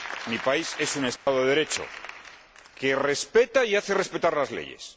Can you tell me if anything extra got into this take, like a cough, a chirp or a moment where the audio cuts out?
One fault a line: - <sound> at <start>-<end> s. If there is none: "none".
- dropout at 1.2-1.3 s